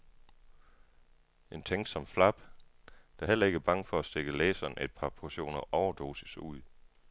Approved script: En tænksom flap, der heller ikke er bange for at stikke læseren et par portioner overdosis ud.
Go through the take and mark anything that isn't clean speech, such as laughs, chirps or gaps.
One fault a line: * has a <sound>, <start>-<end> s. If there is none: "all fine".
all fine